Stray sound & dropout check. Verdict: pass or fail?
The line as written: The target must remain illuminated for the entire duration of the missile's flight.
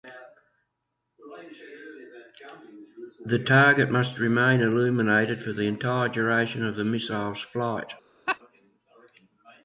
fail